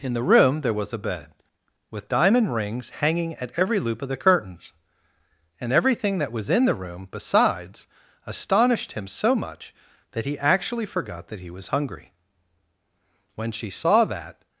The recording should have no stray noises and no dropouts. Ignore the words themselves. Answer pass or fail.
pass